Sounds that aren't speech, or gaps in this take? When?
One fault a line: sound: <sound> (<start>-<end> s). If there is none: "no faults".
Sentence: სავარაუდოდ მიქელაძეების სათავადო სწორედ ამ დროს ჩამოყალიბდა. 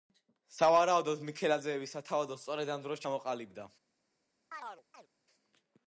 sound: chirp (4.5-5.1 s)